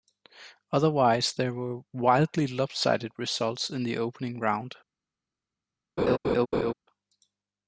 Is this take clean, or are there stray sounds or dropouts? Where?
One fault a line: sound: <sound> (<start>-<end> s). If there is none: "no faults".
sound: laugh (6.0-6.7 s)